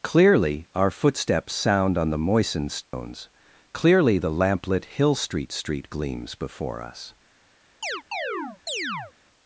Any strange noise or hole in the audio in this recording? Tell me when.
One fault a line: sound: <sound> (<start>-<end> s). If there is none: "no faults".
sound: dropout (2.8-2.9 s)
sound: chirp (7.8-9.1 s)